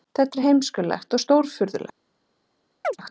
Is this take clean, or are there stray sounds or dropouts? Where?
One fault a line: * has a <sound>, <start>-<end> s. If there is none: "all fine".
* has a chirp, 2.8-3.0 s